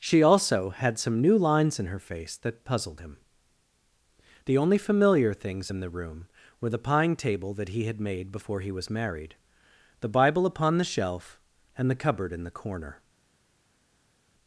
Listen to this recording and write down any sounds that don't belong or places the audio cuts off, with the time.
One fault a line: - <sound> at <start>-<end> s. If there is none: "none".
none